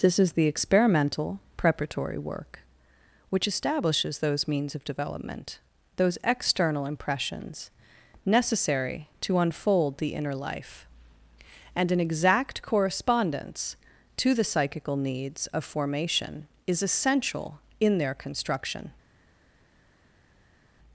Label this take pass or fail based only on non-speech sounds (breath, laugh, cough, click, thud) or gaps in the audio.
pass